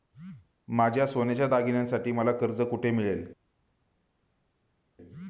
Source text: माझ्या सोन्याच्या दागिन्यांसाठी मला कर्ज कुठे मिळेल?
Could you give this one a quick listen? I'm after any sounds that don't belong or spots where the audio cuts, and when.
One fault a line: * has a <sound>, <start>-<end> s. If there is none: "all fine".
all fine